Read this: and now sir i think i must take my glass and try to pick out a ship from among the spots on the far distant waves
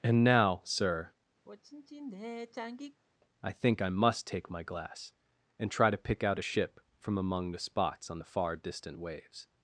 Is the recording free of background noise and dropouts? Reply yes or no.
no